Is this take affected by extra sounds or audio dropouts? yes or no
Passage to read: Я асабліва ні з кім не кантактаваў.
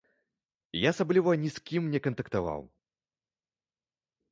no